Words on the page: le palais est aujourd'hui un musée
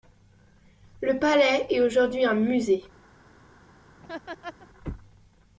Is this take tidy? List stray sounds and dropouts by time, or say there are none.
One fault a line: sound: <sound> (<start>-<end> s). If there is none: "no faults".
sound: laugh (4.0-4.7 s)